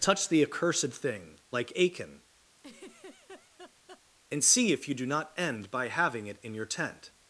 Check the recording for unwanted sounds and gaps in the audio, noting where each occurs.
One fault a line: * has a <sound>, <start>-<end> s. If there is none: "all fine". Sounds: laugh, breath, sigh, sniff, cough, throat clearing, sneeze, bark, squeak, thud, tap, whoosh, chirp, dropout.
* has a laugh, 2.6-4.0 s